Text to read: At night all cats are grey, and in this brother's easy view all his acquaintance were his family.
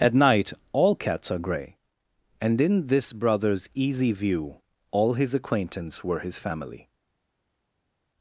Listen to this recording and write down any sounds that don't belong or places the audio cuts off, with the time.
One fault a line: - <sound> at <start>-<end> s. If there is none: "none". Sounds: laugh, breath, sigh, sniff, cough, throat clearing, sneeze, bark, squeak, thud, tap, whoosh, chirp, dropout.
none